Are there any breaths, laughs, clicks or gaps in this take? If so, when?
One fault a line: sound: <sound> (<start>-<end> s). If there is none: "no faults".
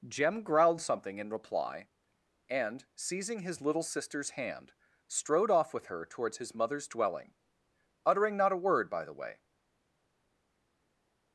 no faults